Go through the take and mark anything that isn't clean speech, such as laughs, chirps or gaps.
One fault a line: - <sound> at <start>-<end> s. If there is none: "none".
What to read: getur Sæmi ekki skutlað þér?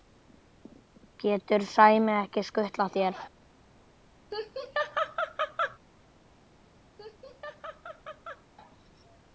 - laugh at 4.3-5.8 s
- laugh at 7.0-8.5 s